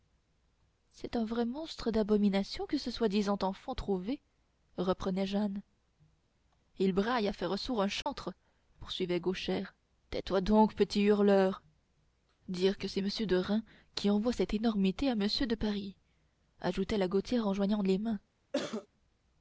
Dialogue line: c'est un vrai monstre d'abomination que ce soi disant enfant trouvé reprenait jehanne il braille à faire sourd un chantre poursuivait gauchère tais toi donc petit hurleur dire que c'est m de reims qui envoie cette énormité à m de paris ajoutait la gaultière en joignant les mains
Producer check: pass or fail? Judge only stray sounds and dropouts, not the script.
fail